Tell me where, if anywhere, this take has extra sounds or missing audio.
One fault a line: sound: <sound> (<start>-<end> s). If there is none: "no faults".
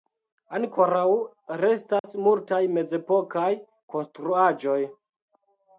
sound: dropout (2.0-2.0 s)